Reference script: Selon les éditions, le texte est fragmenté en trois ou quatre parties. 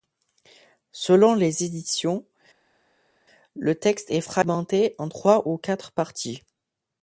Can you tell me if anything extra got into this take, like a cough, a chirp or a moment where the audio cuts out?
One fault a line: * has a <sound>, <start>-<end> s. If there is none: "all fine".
all fine